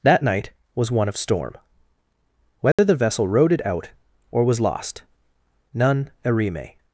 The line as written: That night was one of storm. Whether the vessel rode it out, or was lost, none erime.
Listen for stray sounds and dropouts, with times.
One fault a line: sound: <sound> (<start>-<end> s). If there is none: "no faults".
sound: dropout (2.7-2.8 s)